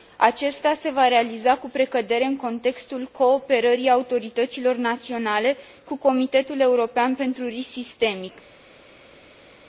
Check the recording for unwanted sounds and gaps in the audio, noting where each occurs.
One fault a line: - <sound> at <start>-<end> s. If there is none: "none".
none